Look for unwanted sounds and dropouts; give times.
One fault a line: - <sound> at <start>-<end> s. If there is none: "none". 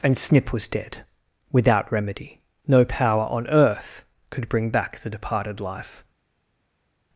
none